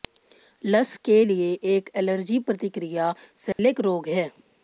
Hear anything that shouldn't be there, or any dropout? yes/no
yes